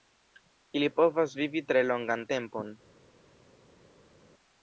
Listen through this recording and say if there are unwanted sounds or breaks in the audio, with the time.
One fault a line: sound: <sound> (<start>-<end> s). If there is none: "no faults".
no faults